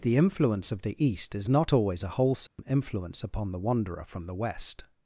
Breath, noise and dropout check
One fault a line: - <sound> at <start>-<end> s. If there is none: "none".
- dropout at 2.5-2.6 s